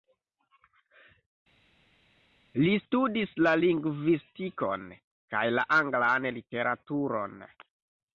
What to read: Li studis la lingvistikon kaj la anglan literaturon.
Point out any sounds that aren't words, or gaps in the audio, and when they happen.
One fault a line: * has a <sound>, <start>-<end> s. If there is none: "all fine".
all fine